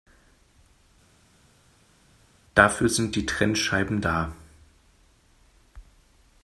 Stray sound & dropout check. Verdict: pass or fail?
pass